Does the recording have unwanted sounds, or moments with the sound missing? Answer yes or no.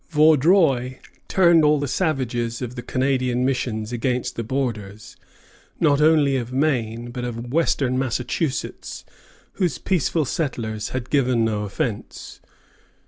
no